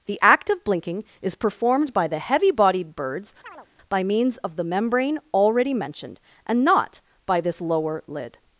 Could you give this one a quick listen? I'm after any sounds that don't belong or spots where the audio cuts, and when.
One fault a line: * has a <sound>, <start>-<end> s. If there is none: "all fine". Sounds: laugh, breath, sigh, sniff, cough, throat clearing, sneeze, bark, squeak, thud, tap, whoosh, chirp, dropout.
* has a chirp, 3.4-3.7 s